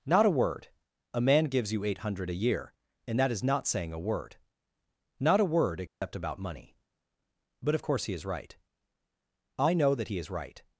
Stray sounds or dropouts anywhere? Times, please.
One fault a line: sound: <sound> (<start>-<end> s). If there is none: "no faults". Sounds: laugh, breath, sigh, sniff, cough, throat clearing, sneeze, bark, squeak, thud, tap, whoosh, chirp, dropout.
sound: dropout (5.9-6.0 s)